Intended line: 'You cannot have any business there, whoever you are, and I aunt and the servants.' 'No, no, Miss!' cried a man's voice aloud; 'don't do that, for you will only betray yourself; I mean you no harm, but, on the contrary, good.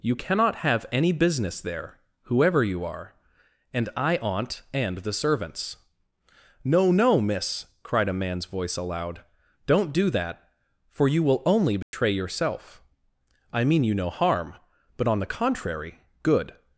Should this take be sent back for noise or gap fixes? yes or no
yes